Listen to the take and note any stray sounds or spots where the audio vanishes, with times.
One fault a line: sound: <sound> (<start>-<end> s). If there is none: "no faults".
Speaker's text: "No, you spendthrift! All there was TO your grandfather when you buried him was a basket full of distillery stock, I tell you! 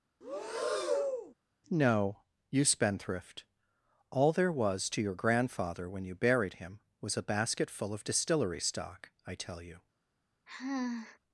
sound: breath (0.2-1.3 s)
sound: sigh (10.5-11.2 s)